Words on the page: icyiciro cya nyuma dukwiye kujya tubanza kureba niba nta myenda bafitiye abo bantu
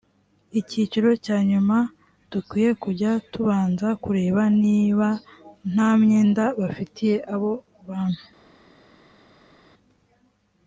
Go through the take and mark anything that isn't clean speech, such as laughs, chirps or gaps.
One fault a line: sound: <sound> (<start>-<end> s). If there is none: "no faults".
no faults